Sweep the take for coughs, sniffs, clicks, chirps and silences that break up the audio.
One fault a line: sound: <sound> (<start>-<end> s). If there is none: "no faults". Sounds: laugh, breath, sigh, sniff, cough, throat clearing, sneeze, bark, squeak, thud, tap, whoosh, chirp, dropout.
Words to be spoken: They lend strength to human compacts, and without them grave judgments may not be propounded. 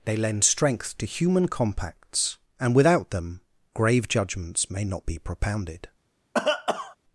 sound: cough (6.3-7.0 s)